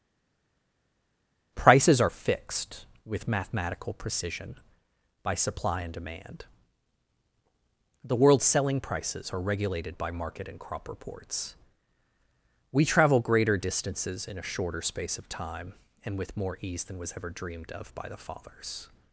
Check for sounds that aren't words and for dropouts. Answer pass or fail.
pass